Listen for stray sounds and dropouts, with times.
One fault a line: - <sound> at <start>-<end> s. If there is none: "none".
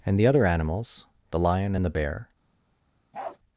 - bark at 3.1-3.4 s